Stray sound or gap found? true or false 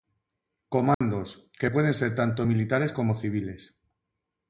true